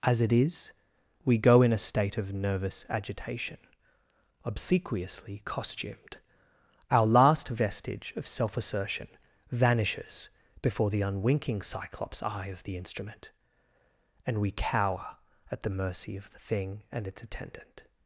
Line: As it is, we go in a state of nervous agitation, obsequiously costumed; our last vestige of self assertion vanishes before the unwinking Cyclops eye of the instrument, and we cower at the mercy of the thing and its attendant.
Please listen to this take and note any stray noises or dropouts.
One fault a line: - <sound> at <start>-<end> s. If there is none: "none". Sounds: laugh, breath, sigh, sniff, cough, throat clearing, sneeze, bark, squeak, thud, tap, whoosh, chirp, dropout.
none